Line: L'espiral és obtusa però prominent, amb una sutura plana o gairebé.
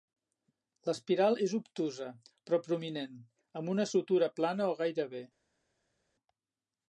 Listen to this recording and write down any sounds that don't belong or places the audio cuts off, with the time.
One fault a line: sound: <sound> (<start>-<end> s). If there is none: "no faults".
no faults